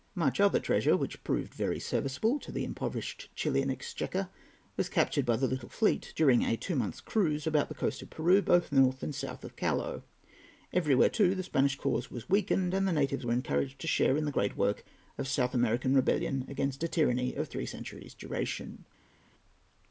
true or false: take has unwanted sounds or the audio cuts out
false